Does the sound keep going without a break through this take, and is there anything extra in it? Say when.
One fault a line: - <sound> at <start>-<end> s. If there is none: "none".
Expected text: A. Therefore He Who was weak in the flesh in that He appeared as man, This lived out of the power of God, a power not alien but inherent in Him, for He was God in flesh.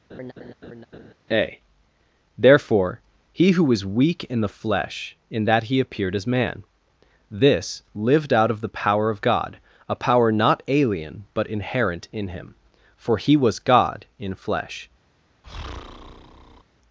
- laugh at 0.1-1.1 s
- breath at 15.4-16.6 s